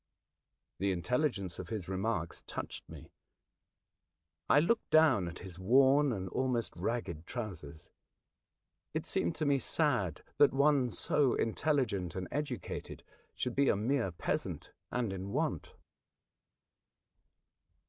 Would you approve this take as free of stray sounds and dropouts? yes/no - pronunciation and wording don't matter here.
yes